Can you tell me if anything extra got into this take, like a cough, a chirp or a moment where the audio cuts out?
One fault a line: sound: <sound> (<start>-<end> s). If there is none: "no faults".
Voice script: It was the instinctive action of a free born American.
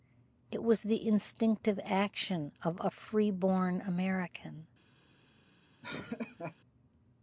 sound: laugh (5.8-6.6 s)